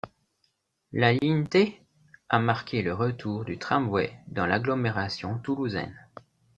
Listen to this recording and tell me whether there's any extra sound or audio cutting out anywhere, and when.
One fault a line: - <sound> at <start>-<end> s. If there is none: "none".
none